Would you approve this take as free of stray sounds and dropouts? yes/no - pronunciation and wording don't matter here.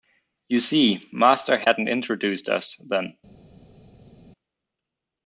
yes